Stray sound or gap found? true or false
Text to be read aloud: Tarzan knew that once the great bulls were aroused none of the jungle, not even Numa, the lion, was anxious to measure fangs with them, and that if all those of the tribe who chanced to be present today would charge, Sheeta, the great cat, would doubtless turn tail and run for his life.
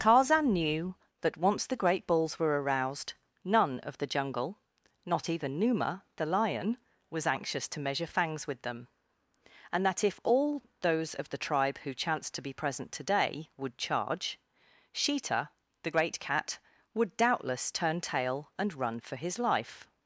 false